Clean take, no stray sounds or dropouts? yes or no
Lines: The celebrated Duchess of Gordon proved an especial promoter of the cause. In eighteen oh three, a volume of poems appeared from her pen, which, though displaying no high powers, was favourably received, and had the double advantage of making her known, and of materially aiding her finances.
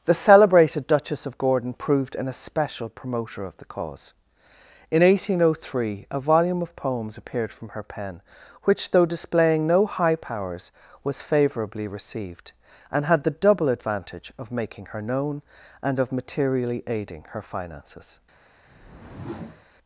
no